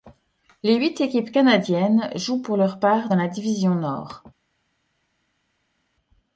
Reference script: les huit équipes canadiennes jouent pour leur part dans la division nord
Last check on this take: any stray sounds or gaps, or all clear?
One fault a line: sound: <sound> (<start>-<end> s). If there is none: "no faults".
no faults